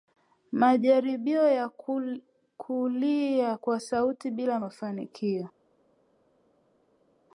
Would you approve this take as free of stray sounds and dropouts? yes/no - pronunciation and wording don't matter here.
yes